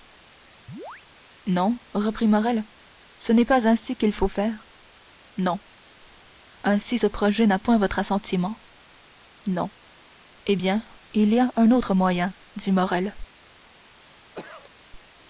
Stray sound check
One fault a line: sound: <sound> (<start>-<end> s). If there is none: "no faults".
sound: chirp (0.7-1.0 s)
sound: cough (14.3-14.8 s)